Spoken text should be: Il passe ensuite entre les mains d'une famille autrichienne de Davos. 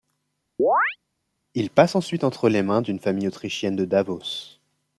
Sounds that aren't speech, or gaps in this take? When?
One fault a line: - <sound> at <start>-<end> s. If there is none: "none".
- chirp at 0.6-1.0 s